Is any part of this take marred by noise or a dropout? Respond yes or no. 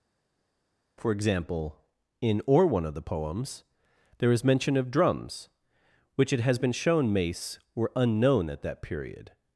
no